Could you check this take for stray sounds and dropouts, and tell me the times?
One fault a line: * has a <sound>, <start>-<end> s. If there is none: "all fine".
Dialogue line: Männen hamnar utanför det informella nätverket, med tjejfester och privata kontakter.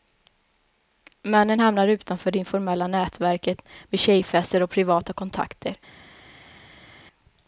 all fine